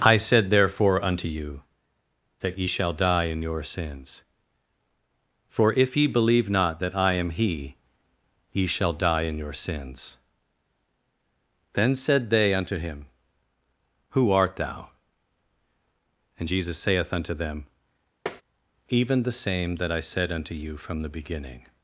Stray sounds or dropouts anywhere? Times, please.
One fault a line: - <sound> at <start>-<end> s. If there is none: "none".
- tap at 18.3-18.4 s